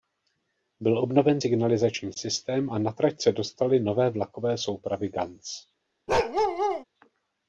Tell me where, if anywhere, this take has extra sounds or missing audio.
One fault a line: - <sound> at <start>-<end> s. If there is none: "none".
- bark at 6.1-6.8 s